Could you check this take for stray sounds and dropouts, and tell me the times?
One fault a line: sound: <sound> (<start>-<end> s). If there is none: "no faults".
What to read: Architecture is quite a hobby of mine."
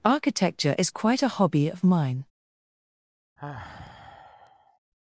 sound: sigh (3.4-4.8 s)